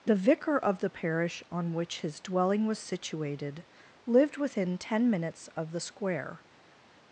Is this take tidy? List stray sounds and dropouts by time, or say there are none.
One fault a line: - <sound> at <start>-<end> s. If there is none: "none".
none